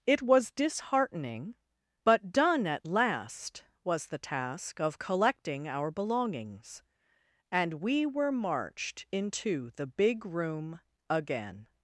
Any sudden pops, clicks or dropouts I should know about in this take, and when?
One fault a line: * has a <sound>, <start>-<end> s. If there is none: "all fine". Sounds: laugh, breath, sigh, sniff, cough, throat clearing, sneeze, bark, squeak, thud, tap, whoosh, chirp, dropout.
all fine